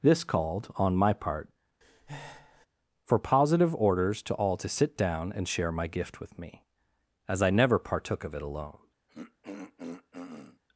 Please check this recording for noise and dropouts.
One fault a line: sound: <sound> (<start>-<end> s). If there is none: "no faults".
sound: breath (1.8-2.7 s)
sound: throat clearing (9.1-10.6 s)